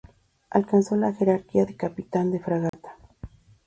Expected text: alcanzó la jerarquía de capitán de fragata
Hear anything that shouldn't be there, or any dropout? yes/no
yes